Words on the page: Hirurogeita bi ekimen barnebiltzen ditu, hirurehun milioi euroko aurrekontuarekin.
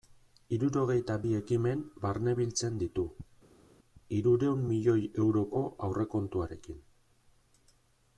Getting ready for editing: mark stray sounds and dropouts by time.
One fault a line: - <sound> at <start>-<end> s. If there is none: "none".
none